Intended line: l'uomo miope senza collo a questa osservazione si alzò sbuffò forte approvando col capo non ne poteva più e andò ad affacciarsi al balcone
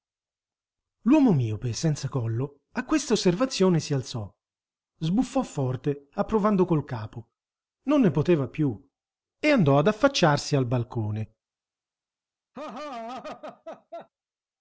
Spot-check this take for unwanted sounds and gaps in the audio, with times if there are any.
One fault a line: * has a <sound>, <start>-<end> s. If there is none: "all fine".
* has a laugh, 12.5-14.1 s